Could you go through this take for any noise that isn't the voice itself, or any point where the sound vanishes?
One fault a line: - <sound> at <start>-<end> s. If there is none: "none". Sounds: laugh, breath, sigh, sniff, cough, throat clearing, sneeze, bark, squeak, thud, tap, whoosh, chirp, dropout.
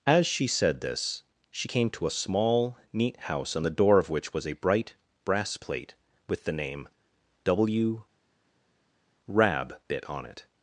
none